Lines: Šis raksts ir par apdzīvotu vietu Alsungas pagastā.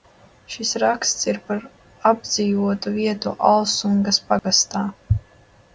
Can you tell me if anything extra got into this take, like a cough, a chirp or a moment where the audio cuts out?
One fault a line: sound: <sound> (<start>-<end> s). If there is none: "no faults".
sound: dropout (4.4-4.4 s)